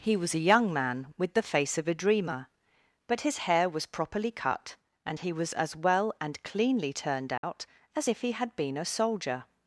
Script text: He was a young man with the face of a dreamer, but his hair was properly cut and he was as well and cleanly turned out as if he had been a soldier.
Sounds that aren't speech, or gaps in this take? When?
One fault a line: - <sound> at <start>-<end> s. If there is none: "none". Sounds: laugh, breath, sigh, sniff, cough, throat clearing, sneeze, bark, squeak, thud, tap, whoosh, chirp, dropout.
- dropout at 7.4-7.4 s